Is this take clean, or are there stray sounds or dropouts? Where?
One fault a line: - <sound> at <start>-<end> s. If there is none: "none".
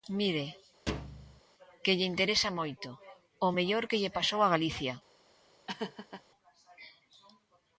- thud at 0.9-1.4 s
- laugh at 5.7-6.2 s